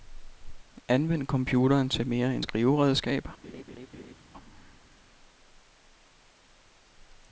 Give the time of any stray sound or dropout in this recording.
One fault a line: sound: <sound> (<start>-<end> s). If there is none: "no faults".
sound: laugh (3.4-4.1 s)